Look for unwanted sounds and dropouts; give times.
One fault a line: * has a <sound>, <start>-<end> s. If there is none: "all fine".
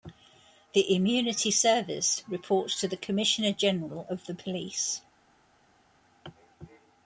all fine